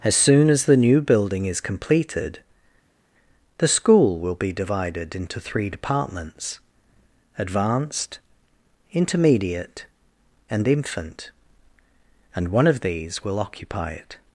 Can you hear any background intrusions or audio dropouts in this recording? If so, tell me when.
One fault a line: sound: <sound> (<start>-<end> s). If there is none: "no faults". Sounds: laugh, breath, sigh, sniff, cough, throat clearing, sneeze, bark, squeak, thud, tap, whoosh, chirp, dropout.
no faults